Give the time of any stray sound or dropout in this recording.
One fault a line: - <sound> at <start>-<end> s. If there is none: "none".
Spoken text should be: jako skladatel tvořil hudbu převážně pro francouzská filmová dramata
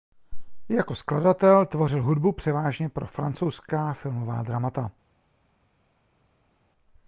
none